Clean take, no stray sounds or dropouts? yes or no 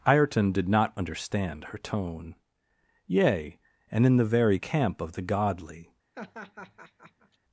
no